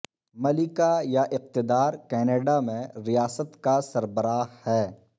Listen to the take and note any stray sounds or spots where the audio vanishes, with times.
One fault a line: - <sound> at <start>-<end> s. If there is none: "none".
none